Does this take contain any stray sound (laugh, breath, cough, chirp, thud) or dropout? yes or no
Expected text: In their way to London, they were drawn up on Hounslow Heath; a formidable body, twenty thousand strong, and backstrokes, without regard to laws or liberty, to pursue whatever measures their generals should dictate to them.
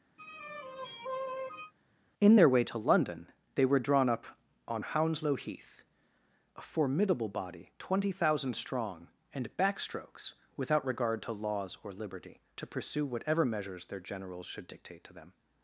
yes